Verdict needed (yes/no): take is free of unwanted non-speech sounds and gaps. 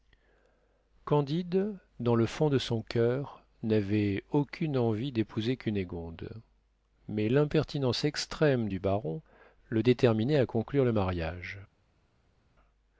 yes